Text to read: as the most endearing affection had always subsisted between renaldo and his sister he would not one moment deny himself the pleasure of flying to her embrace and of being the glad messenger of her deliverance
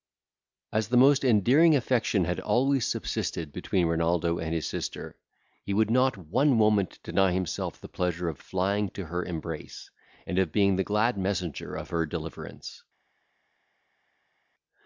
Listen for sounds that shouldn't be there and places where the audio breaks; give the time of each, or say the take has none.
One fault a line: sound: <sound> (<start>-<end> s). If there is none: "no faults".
no faults